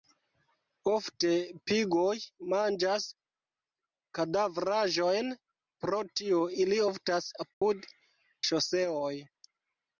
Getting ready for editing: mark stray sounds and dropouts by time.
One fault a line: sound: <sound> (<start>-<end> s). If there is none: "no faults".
sound: dropout (7.5-7.6 s)